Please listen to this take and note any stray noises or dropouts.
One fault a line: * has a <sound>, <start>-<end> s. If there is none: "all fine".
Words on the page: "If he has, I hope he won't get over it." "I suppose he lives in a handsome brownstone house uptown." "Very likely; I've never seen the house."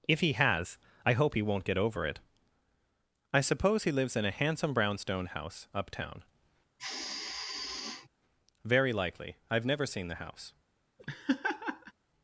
* has a sigh, 6.8-8.1 s
* has a laugh, 11.0-11.9 s